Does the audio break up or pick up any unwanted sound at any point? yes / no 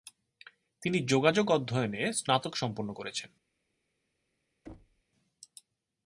yes